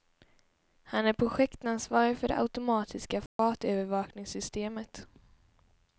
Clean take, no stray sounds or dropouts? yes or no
no